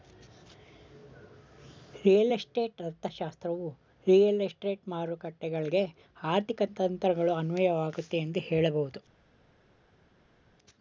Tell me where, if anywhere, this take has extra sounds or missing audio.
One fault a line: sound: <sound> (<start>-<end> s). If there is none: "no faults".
no faults